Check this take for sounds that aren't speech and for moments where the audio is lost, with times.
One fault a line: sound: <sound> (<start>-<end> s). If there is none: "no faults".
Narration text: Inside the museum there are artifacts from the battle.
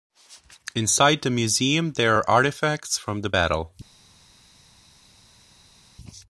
no faults